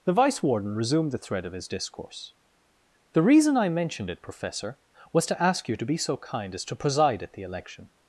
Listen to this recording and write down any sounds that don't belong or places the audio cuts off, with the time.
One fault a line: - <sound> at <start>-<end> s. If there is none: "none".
none